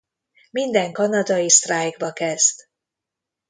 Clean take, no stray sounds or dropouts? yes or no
yes